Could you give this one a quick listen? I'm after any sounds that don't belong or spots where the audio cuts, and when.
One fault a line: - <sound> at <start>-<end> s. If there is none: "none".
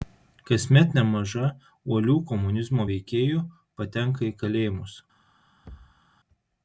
- thud at 5.6-6.0 s